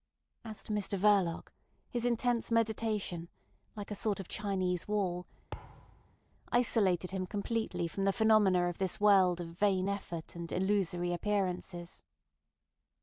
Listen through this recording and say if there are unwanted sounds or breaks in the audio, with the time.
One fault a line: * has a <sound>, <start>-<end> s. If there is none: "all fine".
* has a thud, 5.5-6.2 s